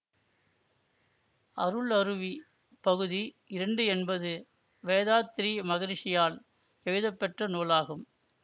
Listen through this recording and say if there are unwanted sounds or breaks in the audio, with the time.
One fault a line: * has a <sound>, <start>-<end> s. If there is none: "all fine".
all fine